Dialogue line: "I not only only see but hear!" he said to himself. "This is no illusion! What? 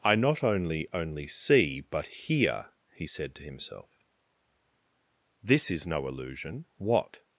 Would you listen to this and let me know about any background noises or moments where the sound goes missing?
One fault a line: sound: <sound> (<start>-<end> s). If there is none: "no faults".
no faults